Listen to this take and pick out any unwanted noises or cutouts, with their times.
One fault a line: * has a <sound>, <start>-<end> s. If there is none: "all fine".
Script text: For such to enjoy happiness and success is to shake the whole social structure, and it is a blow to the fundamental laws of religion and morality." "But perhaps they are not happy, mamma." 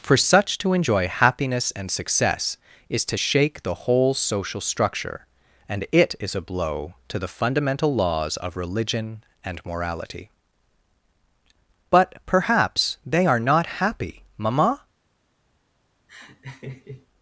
* has a laugh, 16.1-17.1 s